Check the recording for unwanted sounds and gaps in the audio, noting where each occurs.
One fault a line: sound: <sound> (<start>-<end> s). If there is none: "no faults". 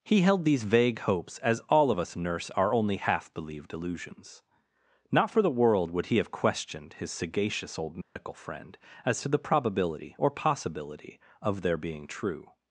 sound: dropout (8.0-8.2 s)